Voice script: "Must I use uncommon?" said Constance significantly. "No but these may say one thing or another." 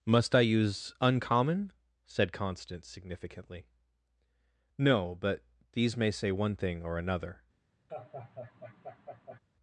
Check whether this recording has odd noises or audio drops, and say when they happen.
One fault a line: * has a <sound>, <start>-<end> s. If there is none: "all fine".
* has a laugh, 7.9-9.4 s